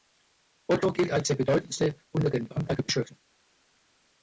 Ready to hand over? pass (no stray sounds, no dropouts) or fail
pass